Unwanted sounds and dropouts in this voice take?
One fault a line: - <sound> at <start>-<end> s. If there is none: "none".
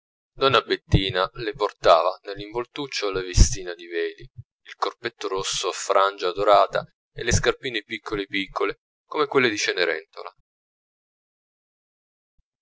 none